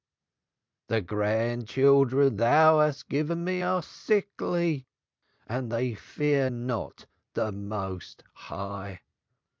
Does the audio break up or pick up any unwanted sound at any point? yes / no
no